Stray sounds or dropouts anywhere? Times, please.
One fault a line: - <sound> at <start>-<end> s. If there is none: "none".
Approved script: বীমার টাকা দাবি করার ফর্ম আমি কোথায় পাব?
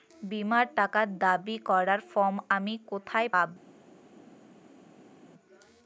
none